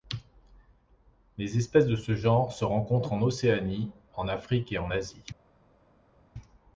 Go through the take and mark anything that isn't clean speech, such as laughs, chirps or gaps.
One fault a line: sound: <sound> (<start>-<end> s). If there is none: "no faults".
no faults